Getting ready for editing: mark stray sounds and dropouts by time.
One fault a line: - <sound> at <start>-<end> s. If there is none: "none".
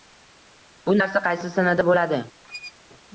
- squeak at 2.4-2.7 s